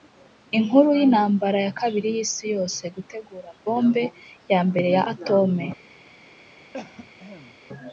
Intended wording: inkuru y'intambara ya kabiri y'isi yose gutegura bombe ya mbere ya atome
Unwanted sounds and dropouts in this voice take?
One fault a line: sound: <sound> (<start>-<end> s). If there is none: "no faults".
sound: cough (6.7-7.6 s)